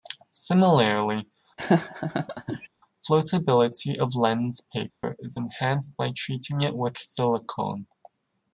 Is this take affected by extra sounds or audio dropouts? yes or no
yes